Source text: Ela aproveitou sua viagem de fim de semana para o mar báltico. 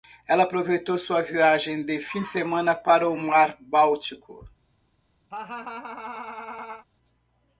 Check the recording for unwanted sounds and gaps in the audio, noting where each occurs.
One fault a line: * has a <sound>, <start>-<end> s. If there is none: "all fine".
* has a laugh, 5.3-6.9 s